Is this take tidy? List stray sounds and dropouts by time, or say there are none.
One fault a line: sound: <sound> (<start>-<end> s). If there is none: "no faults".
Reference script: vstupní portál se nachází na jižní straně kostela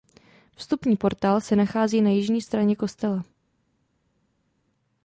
no faults